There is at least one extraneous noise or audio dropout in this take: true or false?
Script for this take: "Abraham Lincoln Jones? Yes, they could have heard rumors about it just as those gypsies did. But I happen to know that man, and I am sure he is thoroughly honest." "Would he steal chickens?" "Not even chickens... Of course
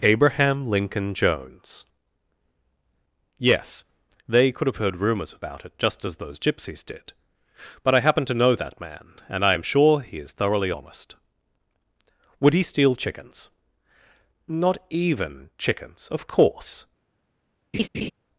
true